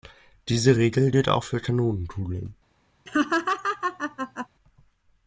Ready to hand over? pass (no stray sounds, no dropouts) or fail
fail